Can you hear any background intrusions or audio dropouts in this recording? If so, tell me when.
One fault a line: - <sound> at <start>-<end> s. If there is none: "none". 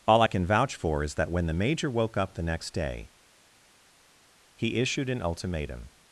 none